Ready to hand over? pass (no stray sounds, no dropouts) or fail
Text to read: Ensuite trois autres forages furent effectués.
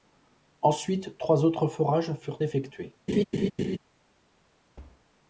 fail